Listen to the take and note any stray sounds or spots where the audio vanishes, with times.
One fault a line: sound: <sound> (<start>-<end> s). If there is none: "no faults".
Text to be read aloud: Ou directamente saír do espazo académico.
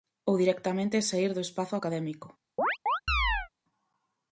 sound: chirp (2.6-3.5 s)